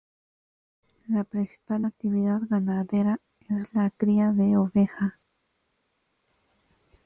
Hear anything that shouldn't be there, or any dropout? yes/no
no